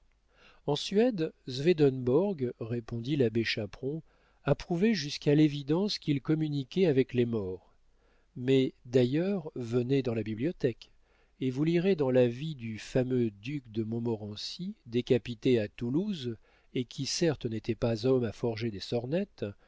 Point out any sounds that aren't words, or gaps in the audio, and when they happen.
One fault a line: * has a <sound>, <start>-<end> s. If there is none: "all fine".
all fine